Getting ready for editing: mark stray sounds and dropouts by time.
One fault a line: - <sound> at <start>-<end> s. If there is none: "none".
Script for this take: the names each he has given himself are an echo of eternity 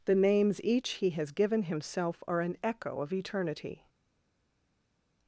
none